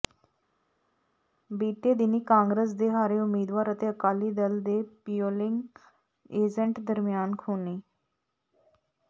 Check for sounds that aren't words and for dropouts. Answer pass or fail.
pass